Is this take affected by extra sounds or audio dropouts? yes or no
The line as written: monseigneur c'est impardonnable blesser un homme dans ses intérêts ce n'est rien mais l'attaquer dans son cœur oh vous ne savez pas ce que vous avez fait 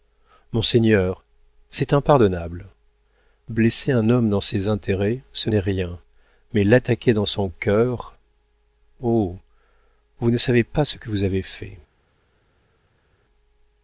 no